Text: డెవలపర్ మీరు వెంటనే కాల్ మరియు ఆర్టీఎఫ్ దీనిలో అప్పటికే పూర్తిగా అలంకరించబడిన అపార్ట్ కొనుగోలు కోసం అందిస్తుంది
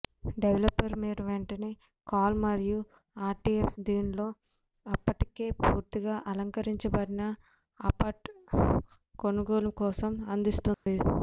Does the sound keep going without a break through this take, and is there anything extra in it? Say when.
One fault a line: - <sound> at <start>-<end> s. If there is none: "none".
- dropout at 10.7-10.9 s